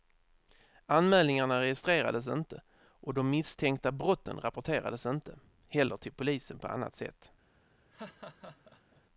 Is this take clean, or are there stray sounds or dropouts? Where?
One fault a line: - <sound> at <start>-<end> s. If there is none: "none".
- laugh at 7.9-9.0 s